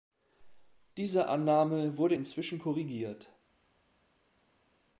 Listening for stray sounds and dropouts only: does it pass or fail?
pass